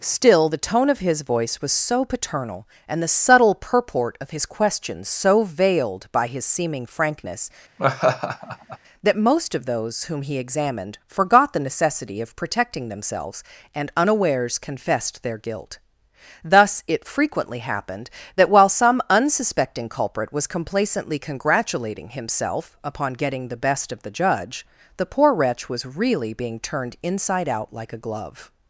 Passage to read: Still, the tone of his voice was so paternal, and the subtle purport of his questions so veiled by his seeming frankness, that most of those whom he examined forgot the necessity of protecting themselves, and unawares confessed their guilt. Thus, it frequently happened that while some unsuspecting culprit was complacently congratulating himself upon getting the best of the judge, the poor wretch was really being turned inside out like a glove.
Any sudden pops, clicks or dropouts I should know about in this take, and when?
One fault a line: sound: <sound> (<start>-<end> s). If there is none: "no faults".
sound: laugh (7.8-8.8 s)